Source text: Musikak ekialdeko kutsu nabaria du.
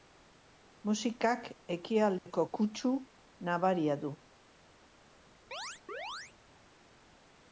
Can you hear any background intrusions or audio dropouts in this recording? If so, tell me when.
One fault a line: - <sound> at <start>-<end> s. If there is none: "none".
- dropout at 2.2-2.3 s
- chirp at 5.5-6.3 s